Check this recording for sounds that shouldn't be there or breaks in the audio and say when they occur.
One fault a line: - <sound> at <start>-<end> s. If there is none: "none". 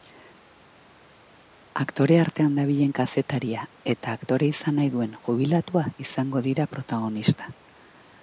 none